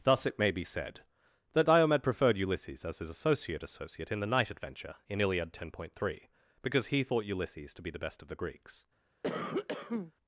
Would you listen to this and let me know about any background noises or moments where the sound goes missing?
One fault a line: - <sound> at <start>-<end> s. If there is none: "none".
- cough at 9.2-10.1 s